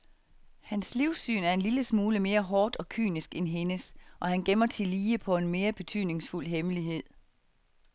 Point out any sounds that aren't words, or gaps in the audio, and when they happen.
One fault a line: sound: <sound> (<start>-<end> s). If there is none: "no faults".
no faults